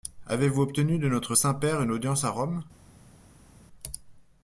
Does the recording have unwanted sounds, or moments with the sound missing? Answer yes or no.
no